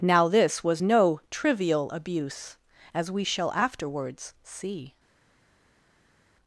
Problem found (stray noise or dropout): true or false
false